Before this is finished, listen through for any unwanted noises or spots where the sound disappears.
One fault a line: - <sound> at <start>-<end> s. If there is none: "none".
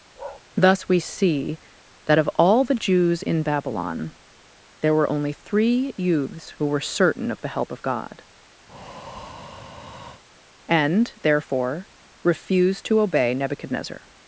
- bark at 0.2-0.4 s
- breath at 8.7-10.2 s